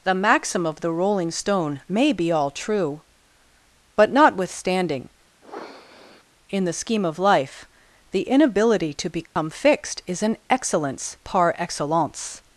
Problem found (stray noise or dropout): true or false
true